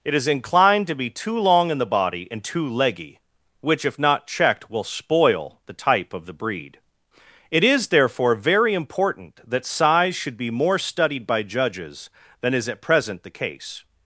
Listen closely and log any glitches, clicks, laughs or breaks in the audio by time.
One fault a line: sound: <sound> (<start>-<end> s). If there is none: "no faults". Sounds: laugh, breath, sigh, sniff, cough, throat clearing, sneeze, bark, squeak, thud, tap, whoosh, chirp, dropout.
no faults